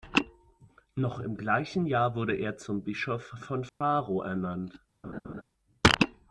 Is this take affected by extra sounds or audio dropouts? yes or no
yes